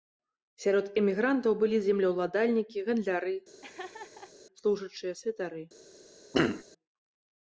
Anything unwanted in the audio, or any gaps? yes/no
yes